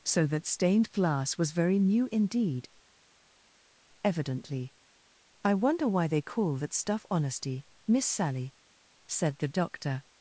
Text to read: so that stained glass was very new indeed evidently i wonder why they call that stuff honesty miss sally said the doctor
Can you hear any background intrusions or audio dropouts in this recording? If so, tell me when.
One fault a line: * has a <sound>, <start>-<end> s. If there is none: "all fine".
all fine